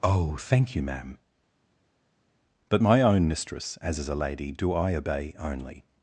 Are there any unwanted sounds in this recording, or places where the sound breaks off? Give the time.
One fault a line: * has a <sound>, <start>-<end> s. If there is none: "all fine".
all fine